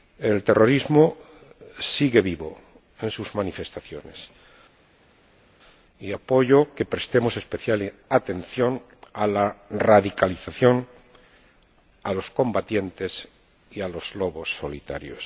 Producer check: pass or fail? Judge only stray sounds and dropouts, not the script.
pass